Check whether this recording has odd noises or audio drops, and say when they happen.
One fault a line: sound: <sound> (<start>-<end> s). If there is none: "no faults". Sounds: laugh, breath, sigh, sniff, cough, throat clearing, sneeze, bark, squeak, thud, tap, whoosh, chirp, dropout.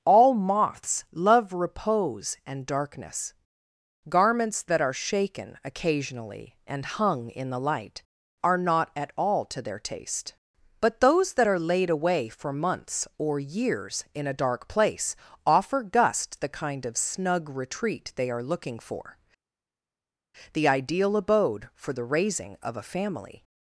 no faults